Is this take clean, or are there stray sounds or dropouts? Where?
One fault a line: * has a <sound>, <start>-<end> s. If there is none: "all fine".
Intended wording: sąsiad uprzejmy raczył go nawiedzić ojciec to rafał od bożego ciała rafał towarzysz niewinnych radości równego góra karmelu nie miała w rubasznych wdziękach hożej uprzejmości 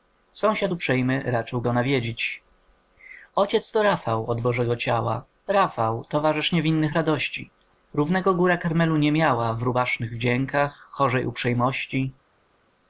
all fine